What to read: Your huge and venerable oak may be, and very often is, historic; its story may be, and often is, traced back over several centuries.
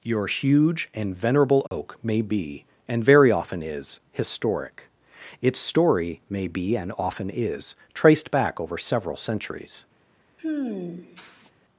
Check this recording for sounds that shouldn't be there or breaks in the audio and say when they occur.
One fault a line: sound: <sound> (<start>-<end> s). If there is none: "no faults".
sound: dropout (1.7-1.7 s)
sound: sigh (10.4-11.5 s)